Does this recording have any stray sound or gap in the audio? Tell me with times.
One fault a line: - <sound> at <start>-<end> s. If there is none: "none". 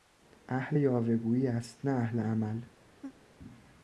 - laugh at 3.0-3.2 s